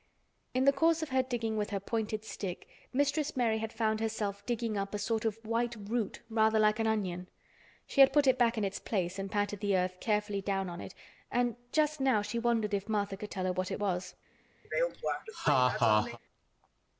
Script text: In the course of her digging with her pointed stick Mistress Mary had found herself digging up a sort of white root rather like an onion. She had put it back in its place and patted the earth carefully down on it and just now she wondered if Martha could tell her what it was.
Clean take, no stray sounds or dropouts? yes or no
no